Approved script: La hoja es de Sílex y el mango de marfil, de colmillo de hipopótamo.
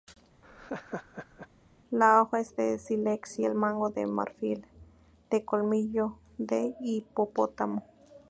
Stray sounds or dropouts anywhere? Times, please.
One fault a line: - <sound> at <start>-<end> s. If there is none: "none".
- laugh at 0.4-1.5 s